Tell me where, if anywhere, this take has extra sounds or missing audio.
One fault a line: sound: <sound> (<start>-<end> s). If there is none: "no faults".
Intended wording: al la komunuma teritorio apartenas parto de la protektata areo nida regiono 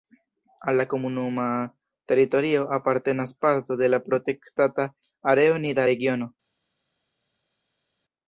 no faults